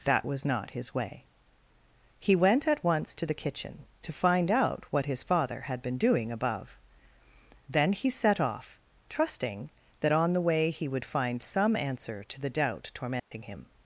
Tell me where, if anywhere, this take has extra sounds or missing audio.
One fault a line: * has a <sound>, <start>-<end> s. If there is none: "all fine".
* has a dropout, 13.2-13.3 s